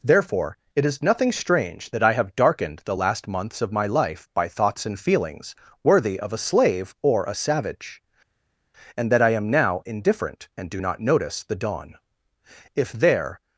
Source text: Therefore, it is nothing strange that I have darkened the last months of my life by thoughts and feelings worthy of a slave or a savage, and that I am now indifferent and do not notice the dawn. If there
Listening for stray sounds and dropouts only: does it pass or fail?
pass